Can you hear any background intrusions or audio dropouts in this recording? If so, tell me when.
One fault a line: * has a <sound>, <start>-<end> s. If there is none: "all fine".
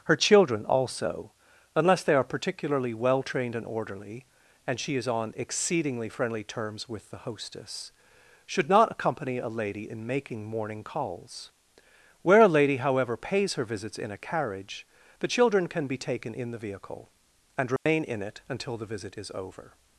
* has a dropout, 17.8-17.9 s